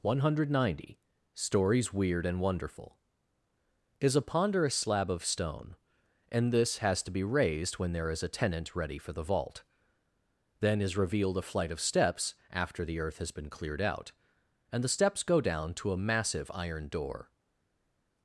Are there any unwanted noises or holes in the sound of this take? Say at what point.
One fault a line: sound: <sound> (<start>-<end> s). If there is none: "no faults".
no faults